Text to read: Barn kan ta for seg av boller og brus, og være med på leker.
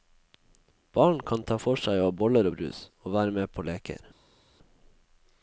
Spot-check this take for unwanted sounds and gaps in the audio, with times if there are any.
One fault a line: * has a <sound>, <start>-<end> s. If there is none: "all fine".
all fine